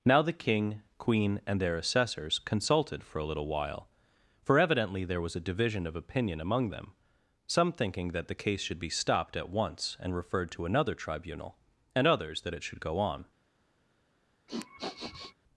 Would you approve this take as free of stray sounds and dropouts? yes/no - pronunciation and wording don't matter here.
no